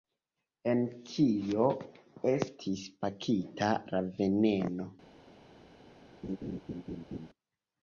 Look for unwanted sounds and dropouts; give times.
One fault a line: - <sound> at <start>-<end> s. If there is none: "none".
- laugh at 6.2-7.3 s